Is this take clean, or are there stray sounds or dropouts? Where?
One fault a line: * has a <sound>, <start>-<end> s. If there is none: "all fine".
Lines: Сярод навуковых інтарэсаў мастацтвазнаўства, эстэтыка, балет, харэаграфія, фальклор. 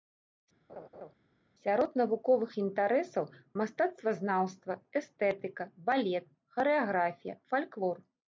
* has a laugh, 0.7-1.1 s